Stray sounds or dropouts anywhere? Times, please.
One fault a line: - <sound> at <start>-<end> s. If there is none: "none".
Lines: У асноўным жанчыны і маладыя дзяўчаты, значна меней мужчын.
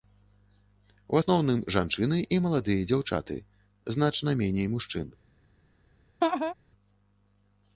- laugh at 6.2-6.5 s